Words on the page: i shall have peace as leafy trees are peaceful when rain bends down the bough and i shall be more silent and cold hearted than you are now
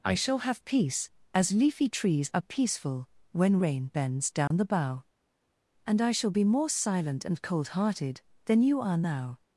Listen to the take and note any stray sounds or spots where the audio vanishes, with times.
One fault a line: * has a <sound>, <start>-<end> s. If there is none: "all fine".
* has a dropout, 4.5-4.5 s